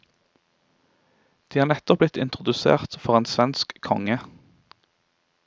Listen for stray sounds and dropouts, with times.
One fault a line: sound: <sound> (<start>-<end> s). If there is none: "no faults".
no faults